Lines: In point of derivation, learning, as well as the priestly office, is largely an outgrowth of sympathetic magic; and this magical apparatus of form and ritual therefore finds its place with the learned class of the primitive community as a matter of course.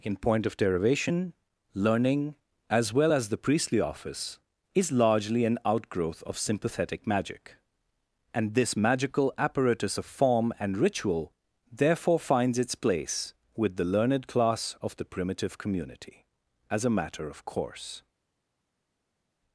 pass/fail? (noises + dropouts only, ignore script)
pass